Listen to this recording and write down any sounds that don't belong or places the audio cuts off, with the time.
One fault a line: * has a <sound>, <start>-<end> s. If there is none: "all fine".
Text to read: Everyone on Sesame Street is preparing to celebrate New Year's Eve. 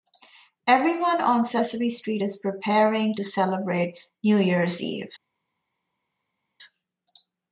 all fine